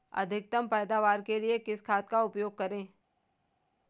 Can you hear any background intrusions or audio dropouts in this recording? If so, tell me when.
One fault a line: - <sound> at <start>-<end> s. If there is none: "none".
none